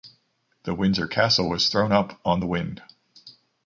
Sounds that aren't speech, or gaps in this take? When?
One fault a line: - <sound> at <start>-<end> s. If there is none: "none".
none